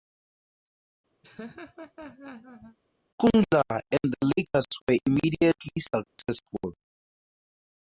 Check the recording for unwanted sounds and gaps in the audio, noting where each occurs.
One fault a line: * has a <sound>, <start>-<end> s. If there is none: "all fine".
* has a laugh, 1.2-2.8 s
* has a dropout, 6.1-6.2 s